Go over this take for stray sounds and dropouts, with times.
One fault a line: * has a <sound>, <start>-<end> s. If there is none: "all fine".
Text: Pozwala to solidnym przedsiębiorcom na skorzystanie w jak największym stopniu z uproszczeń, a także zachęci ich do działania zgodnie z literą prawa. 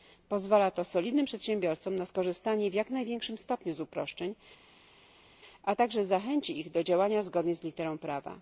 all fine